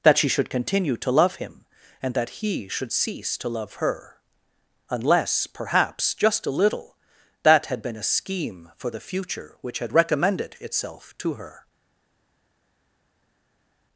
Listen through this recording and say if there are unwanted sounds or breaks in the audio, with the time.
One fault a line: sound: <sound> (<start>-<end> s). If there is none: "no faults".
no faults